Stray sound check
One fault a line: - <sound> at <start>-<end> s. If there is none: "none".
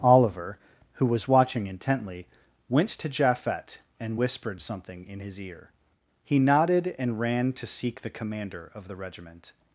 none